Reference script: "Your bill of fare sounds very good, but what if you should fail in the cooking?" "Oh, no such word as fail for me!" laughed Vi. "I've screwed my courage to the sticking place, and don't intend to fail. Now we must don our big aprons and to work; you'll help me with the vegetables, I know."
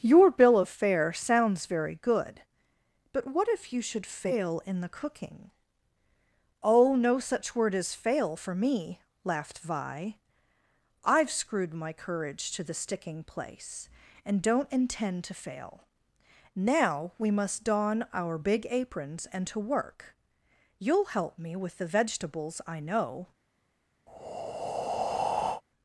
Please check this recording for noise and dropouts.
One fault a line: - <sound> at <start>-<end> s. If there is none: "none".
- breath at 24.1-25.6 s